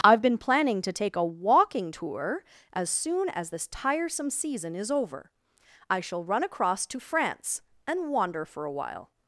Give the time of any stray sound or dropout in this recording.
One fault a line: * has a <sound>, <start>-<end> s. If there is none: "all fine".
all fine